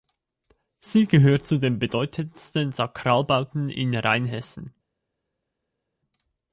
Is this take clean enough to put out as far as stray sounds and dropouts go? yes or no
yes